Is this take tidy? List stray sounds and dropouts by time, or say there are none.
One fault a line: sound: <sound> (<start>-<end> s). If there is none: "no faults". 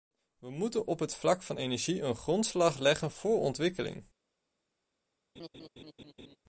sound: laugh (5.4-6.4 s)